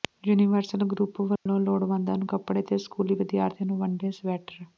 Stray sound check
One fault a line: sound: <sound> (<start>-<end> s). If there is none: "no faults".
sound: dropout (1.4-1.5 s)